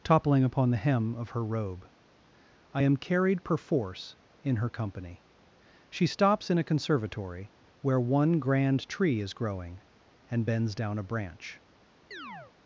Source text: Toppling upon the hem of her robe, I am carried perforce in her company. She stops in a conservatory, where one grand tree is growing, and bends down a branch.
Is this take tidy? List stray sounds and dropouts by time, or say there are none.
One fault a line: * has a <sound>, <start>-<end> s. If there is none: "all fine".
* has a chirp, 12.1-12.5 s